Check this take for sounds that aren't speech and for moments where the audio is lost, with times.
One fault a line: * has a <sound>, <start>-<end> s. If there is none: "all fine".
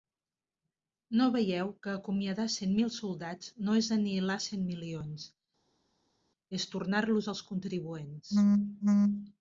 all fine